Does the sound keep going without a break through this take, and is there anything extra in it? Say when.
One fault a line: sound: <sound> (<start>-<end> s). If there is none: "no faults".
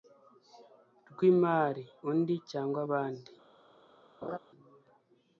sound: laugh (4.2-4.4 s)